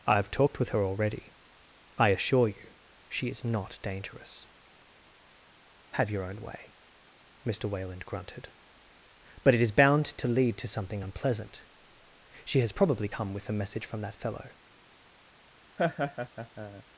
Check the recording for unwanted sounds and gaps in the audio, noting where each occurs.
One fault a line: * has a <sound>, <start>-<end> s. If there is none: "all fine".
* has a laugh, 15.8-16.8 s